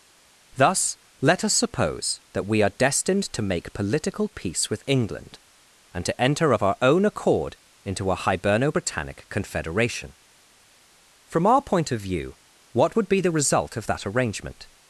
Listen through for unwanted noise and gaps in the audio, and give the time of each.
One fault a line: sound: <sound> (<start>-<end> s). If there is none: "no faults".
no faults